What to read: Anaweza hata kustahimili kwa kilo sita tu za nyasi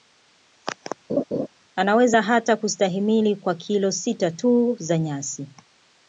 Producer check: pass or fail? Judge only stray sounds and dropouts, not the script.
fail